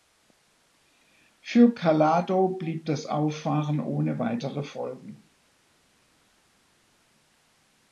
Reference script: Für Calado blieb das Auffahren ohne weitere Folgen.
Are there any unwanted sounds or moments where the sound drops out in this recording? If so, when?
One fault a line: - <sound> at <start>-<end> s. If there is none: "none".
none